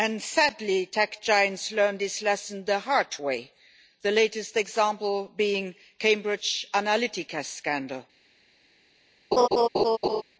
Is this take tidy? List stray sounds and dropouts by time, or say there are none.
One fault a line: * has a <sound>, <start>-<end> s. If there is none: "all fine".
* has a laugh, 9.3-10.2 s